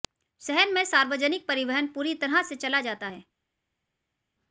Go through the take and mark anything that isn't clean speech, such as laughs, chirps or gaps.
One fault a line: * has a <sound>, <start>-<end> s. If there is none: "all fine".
all fine